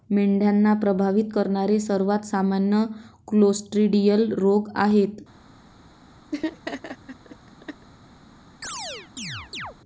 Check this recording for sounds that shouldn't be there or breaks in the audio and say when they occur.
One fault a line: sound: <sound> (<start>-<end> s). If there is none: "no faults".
sound: laugh (6.3-7.9 s)
sound: chirp (8.6-9.8 s)